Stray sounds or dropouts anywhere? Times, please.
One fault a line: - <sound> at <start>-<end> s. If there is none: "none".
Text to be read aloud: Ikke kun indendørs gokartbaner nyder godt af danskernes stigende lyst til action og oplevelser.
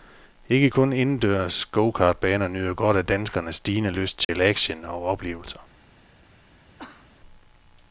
- dropout at 4.2-4.3 s
- cough at 6.8-7.1 s